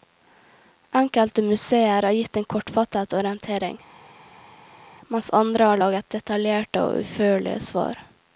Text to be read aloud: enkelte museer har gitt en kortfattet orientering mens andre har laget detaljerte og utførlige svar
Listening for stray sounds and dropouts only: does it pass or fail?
pass